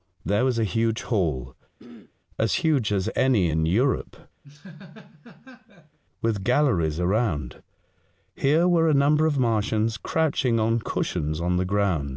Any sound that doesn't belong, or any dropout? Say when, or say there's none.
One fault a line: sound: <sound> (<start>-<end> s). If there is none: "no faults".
sound: throat clearing (1.8-2.1 s)
sound: laugh (4.4-6.0 s)